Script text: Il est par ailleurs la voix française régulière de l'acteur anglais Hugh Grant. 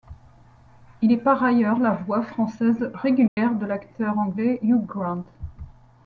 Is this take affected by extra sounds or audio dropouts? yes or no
yes